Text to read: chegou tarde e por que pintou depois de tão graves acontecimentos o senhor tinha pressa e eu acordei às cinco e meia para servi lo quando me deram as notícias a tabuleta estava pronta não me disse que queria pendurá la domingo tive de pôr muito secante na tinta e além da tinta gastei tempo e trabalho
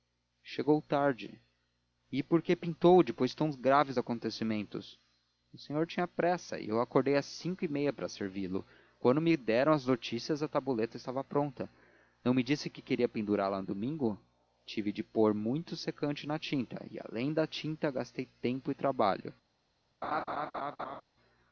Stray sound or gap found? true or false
true